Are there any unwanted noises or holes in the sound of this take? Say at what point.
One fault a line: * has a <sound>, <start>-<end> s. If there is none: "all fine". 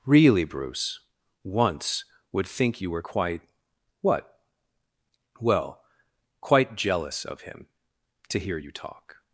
all fine